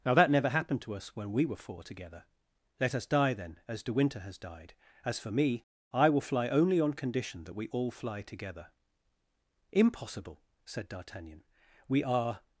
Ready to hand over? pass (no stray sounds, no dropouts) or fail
pass